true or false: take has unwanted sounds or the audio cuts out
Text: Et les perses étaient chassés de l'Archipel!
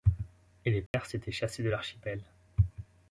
true